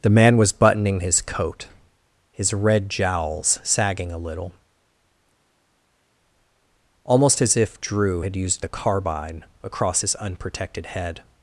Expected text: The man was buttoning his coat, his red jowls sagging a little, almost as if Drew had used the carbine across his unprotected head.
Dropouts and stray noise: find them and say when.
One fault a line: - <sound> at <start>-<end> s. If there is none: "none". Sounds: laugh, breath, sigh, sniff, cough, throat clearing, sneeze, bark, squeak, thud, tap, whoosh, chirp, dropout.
none